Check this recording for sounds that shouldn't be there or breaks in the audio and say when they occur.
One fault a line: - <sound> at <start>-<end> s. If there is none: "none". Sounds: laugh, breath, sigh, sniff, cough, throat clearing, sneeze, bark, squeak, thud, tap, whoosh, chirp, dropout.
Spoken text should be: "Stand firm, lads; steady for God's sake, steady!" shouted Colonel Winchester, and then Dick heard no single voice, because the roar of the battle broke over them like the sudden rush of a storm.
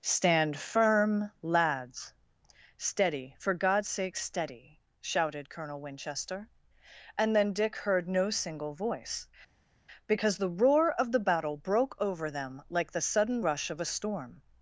none